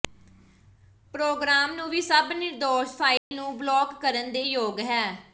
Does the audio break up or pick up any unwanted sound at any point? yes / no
yes